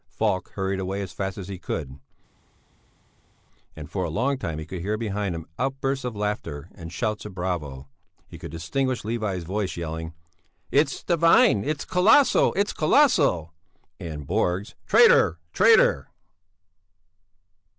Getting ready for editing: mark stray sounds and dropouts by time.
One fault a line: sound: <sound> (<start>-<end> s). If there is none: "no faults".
no faults